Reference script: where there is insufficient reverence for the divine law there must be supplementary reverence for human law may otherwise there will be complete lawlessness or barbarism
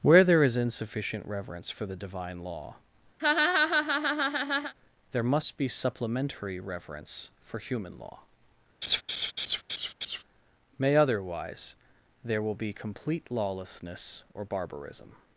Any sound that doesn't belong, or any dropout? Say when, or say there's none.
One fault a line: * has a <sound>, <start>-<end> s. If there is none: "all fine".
* has a laugh, 3.2-4.7 s
* has a laugh, 8.8-10.2 s